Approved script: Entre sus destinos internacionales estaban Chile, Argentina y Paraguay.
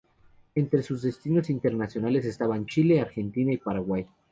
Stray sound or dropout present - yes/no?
no